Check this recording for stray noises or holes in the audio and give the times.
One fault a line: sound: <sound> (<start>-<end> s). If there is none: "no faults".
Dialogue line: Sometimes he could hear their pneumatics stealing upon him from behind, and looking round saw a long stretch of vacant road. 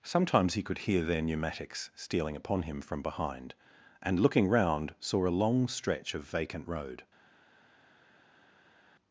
no faults